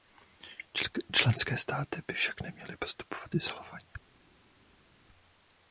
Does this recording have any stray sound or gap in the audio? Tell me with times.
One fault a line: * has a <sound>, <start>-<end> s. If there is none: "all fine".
all fine